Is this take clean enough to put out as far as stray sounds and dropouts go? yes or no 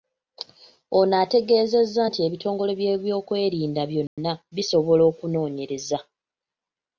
no